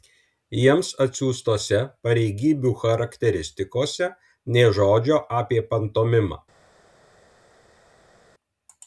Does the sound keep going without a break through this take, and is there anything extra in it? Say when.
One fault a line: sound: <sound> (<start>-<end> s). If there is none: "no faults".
no faults